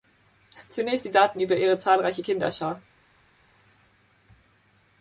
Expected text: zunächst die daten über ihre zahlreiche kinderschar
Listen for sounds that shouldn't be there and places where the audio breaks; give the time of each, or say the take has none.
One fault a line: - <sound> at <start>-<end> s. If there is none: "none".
none